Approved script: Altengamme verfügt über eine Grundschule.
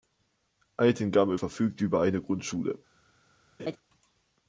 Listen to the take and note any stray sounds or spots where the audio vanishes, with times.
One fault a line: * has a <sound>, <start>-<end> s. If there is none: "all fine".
* has a laugh, 3.6-3.8 s